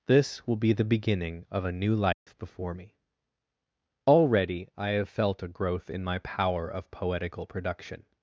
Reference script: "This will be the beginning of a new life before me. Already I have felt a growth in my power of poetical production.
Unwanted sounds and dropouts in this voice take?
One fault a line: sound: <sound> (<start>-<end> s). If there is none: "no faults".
sound: dropout (2.1-2.3 s)